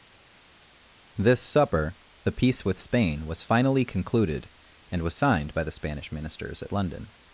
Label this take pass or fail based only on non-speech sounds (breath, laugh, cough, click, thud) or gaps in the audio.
pass